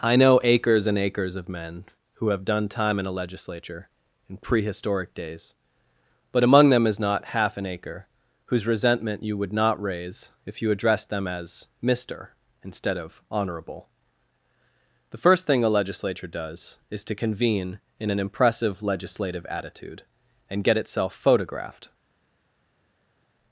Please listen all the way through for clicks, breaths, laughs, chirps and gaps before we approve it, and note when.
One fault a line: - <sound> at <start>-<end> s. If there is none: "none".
none